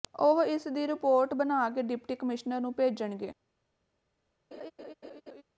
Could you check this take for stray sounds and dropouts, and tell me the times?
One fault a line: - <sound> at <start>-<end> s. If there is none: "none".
- laugh at 4.5-5.4 s